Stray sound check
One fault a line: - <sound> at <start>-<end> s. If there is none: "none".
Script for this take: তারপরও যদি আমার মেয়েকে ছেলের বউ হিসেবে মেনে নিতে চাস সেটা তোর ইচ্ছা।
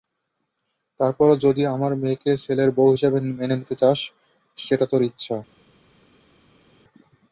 none